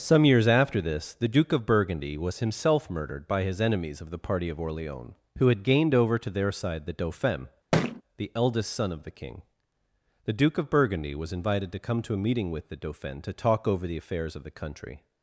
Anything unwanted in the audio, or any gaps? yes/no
yes